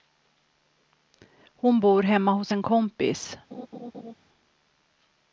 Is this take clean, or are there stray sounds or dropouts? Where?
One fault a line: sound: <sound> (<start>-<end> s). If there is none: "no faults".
sound: laugh (3.5-4.1 s)